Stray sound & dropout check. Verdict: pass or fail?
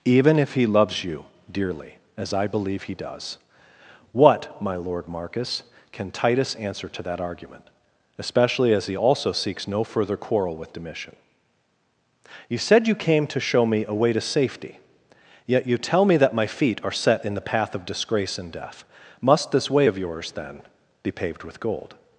pass